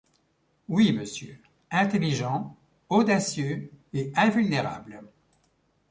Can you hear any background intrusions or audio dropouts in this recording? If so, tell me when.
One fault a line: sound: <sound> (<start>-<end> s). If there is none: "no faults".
no faults